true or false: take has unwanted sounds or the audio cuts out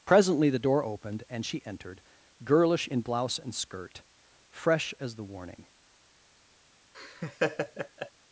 true